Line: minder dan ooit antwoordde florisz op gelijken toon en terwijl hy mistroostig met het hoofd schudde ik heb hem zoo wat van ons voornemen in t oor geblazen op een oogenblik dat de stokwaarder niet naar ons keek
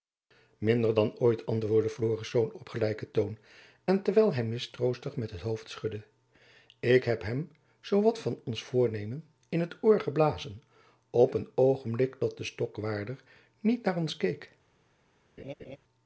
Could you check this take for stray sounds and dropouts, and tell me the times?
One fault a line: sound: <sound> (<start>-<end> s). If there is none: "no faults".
sound: laugh (15.4-15.8 s)